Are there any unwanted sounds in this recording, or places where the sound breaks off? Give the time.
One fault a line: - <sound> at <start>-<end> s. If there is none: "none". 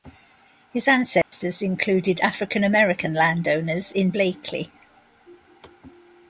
- dropout at 1.2-1.3 s